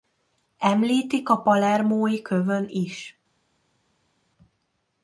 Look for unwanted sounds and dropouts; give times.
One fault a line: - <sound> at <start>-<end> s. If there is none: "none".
none